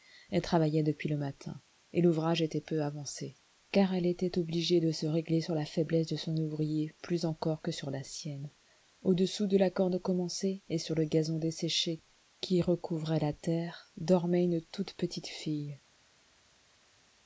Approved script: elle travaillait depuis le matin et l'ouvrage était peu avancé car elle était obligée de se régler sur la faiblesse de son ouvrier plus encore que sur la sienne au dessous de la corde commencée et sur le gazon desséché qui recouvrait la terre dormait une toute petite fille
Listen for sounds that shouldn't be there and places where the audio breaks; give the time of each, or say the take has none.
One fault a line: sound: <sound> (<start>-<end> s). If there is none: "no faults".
no faults